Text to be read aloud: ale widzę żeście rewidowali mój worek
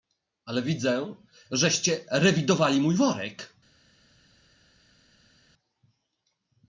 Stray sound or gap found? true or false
false